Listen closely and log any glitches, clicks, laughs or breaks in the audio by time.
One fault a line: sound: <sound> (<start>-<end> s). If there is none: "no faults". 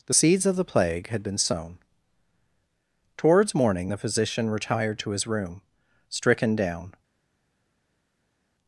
no faults